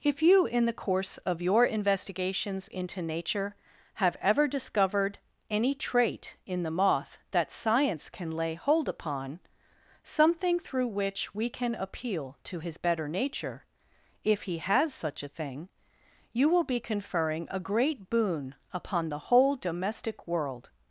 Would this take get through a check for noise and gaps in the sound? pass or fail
pass